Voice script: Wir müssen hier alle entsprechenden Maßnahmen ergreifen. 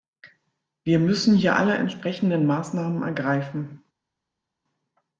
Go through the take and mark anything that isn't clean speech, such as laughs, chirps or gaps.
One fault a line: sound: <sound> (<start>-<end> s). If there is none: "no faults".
no faults